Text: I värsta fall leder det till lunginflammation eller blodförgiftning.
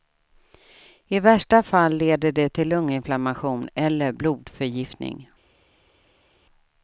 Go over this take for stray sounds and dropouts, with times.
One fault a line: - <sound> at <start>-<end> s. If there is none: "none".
none